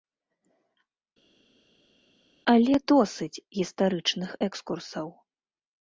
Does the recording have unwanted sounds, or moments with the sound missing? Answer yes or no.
no